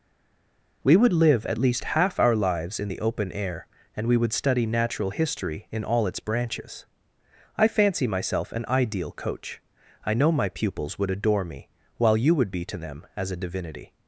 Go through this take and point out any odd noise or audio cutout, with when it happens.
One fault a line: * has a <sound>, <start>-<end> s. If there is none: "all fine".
all fine